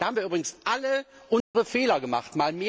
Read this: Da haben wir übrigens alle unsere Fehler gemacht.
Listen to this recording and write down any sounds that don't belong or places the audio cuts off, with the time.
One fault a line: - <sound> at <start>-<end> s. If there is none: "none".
- dropout at 1.4-1.5 s